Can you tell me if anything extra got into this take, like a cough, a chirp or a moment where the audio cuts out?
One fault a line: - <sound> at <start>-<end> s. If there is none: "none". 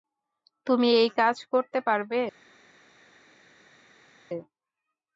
none